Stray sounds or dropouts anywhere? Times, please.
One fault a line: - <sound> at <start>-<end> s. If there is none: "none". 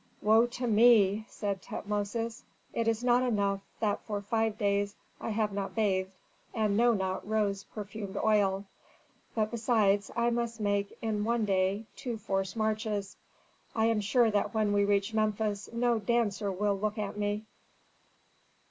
none